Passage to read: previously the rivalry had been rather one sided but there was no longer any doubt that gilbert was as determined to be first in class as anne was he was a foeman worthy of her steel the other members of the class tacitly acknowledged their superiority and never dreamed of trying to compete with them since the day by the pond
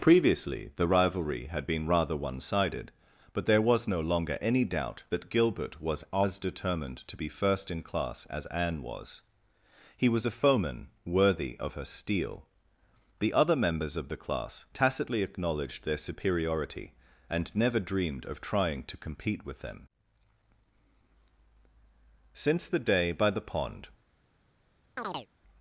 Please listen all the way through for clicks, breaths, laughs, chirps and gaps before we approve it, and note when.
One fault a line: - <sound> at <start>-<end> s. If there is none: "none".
- chirp at 25.0-25.3 s